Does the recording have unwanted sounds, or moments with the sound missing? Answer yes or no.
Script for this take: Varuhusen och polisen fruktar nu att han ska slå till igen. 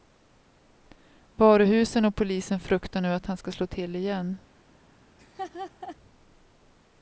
yes